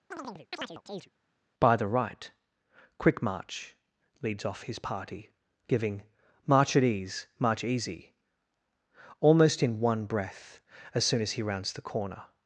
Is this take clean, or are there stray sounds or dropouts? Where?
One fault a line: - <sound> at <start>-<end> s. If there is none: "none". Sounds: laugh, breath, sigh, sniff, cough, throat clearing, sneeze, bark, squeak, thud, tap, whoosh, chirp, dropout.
- chirp at 0.1-1.1 s